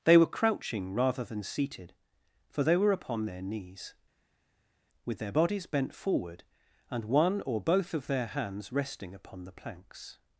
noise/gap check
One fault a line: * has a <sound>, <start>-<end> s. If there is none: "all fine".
all fine